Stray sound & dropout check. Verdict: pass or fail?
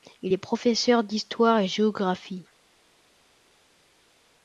pass